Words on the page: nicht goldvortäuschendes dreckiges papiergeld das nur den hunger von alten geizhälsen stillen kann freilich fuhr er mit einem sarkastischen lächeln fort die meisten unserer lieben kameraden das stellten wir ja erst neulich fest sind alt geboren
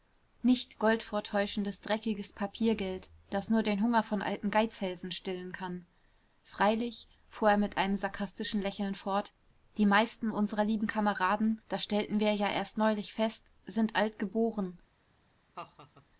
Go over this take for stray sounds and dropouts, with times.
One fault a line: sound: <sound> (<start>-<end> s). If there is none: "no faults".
sound: laugh (15.5-16.1 s)